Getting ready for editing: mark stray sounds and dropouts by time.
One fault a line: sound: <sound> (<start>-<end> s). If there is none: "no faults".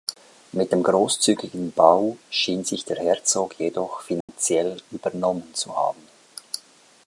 sound: dropout (4.2-4.3 s)